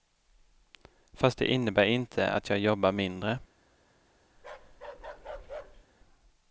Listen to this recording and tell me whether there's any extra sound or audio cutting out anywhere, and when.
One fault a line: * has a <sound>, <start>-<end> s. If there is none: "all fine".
* has a bark, 4.4-5.8 s